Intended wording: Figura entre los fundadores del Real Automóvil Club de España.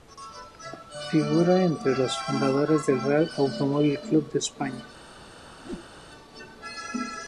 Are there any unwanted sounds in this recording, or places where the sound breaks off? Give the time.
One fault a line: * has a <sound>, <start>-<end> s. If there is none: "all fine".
* has a whoosh, 5.6-5.9 s